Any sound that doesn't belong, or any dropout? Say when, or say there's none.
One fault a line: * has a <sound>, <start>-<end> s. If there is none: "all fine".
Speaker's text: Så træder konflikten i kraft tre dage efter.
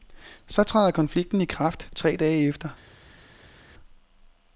all fine